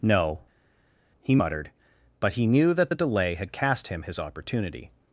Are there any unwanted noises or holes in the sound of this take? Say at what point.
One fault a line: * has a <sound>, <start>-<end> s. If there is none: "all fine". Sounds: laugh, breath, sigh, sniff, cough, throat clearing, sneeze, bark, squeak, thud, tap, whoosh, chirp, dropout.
all fine